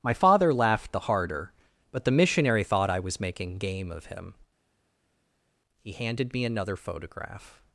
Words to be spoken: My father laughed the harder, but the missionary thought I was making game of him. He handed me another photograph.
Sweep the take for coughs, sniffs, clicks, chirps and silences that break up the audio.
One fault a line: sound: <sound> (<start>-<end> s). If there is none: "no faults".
no faults